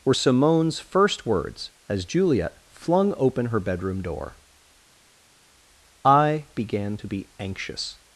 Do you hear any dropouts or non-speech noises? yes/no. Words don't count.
no